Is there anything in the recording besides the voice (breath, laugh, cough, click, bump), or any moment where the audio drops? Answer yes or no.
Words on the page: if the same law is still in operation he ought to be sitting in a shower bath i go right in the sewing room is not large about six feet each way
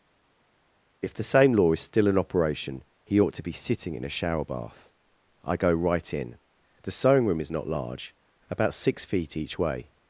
no